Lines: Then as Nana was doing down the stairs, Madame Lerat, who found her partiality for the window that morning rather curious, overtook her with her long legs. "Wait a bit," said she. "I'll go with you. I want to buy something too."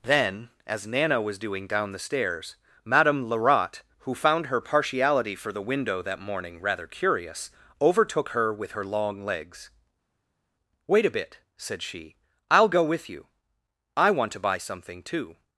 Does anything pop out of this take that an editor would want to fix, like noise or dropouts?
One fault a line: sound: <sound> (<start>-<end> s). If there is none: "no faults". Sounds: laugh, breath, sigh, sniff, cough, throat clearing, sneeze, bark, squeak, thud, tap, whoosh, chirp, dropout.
no faults